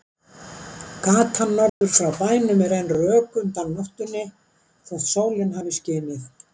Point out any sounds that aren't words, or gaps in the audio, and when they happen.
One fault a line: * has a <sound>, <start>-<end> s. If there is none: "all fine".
* has a dropout, 1.7-1.8 s